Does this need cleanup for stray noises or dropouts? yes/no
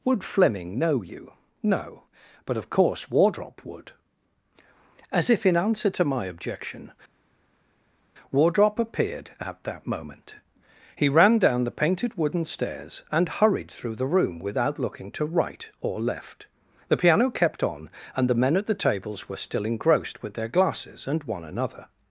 no